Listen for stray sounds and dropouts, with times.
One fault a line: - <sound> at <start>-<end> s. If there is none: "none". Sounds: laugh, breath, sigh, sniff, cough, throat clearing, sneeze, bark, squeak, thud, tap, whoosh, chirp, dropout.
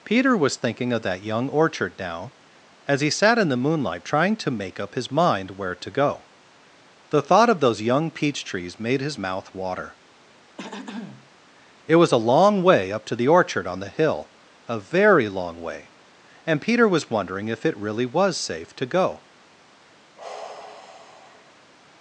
- throat clearing at 10.6-11.3 s
- sigh at 20.2-21.7 s